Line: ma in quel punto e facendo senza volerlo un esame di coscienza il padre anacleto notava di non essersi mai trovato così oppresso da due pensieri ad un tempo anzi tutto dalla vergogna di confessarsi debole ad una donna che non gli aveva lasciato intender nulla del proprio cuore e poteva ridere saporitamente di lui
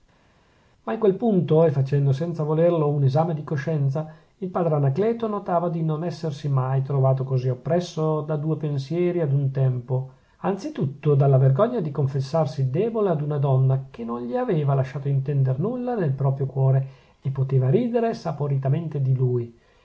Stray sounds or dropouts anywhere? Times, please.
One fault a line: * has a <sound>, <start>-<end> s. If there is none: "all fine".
all fine